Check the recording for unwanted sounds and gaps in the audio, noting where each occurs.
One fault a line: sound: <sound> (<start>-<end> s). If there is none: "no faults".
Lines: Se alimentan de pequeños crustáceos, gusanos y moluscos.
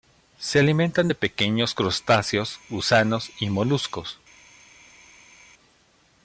no faults